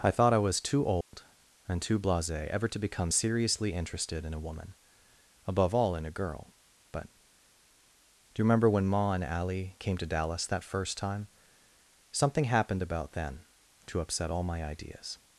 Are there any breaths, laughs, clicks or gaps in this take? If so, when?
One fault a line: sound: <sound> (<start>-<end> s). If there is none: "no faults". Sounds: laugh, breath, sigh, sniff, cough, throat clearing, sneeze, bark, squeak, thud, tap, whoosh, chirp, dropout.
sound: dropout (1.0-1.1 s)